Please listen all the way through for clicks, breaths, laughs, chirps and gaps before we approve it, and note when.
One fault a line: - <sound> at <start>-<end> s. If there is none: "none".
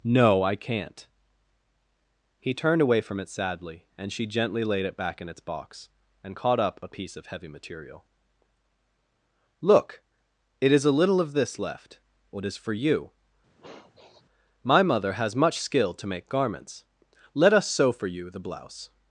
- sniff at 13.6-14.2 s